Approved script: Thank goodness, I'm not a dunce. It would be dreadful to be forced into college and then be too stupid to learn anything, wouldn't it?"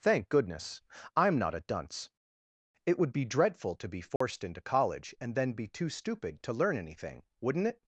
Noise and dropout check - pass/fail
fail